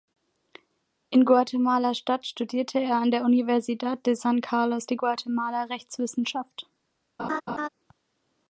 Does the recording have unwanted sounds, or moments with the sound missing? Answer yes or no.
yes